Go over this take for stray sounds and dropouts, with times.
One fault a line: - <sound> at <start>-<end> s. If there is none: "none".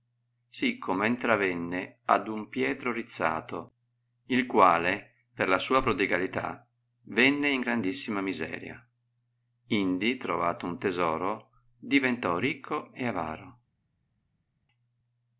none